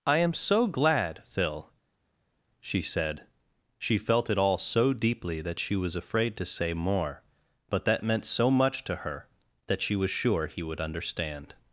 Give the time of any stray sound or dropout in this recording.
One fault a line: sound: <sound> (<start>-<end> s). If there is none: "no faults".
no faults